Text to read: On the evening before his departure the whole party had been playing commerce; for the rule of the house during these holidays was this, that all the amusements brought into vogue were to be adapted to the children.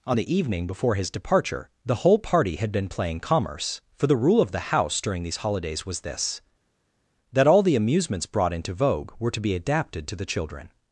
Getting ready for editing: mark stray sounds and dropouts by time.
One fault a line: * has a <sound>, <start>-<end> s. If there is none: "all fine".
all fine